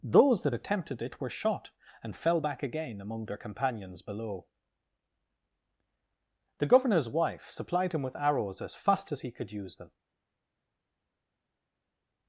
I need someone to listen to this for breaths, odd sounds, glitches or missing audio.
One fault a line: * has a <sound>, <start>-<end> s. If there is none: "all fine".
all fine